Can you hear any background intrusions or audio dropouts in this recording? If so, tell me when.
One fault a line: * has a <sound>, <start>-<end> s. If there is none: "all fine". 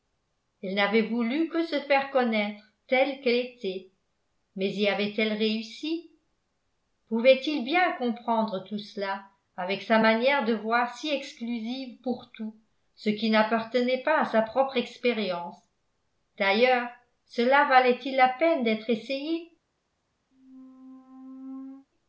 * has a squeak, 20.3-21.9 s